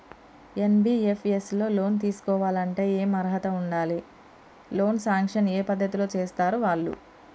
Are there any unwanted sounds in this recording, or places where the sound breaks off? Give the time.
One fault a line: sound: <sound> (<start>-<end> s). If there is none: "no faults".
no faults